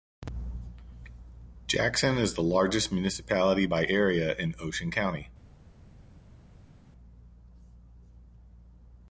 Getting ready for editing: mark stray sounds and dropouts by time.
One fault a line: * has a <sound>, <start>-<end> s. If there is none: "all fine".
all fine